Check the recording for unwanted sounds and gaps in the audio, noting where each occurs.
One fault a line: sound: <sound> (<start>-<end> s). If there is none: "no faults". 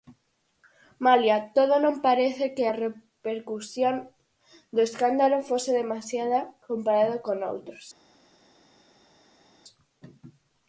no faults